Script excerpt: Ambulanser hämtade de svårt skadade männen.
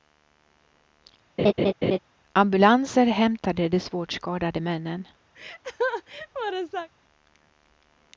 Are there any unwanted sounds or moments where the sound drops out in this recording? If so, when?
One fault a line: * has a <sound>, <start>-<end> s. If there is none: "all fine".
* has a laugh, 1.4-2.0 s
* has a laugh, 5.3-6.9 s